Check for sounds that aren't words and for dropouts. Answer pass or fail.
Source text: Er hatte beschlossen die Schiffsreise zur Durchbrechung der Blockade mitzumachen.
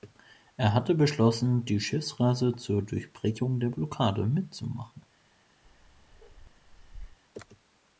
fail